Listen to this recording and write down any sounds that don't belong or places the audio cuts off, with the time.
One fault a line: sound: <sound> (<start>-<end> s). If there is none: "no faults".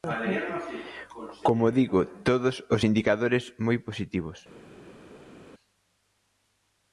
no faults